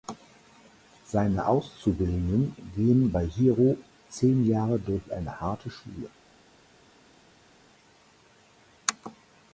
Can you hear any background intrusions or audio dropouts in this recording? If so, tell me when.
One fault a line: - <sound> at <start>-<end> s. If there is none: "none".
none